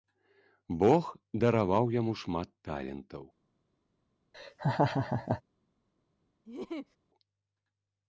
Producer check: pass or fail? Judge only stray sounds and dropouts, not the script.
fail